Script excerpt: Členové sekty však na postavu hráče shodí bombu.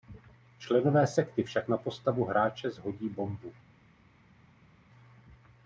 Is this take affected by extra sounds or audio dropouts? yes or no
no